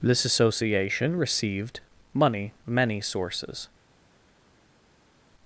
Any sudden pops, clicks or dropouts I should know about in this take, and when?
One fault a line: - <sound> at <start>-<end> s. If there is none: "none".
none